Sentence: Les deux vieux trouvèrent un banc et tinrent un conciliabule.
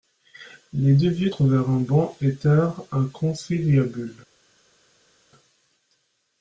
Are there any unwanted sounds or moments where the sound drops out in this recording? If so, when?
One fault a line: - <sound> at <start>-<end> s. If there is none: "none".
none